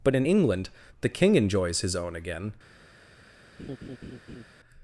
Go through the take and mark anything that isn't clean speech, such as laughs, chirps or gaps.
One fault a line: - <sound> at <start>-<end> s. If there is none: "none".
- laugh at 3.6-4.4 s